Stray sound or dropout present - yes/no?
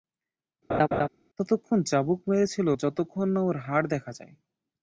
yes